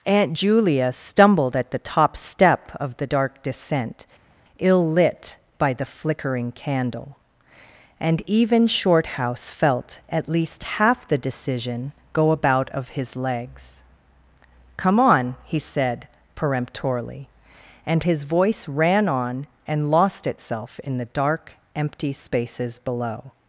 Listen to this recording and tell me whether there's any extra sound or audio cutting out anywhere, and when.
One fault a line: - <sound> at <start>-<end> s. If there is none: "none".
none